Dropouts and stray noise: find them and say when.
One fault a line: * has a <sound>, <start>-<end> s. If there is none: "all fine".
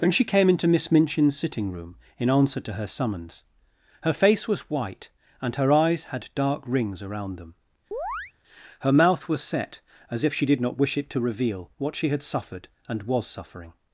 * has a chirp, 7.9-8.3 s